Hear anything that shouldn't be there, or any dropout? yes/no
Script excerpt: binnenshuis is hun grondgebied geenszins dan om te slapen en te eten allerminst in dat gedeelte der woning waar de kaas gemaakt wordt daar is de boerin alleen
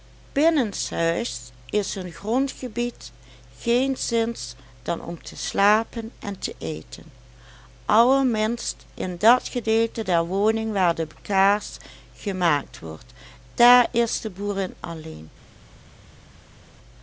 no